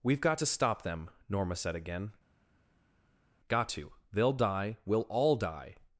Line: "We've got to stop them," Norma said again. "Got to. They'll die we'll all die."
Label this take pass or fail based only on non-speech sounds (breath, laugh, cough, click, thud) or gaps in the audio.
pass